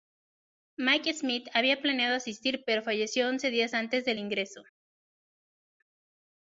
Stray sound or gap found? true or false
false